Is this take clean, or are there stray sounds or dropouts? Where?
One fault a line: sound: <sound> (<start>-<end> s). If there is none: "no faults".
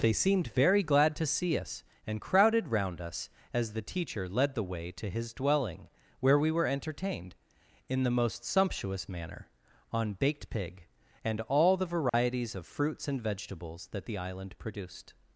sound: dropout (12.1-12.1 s)